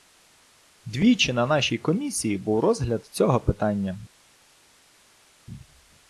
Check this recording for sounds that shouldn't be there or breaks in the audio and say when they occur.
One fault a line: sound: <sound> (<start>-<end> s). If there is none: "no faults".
no faults